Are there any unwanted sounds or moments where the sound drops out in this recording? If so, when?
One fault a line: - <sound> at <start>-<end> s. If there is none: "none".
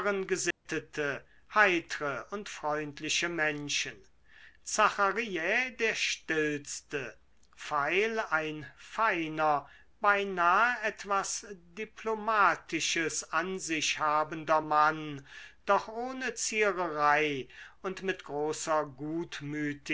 - dropout at 0.5-0.7 s